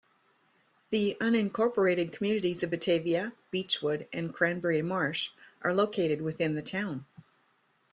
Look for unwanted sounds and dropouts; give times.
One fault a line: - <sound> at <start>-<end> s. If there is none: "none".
none